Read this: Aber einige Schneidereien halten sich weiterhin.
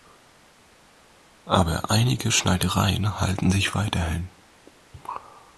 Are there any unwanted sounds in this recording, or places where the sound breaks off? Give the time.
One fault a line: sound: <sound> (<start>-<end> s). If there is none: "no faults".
no faults